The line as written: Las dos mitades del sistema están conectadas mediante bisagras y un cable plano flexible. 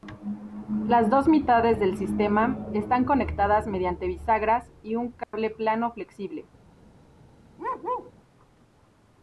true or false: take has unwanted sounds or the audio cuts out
true